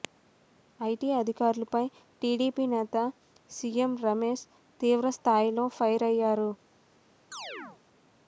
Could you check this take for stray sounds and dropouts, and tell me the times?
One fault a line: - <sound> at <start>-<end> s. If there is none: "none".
- chirp at 7.3-7.8 s